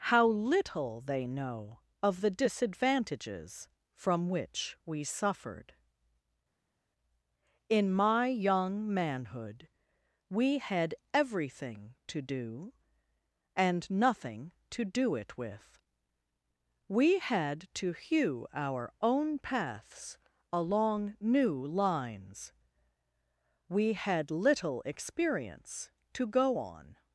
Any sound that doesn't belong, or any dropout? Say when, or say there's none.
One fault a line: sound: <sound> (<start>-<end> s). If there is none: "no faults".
no faults